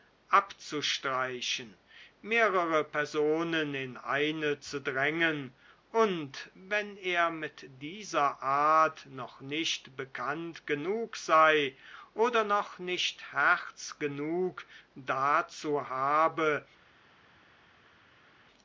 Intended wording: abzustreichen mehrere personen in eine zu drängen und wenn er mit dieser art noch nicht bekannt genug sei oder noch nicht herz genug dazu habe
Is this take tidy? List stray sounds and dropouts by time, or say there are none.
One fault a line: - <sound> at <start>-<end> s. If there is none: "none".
none